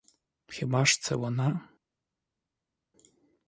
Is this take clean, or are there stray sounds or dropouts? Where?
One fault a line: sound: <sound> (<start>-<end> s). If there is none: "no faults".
no faults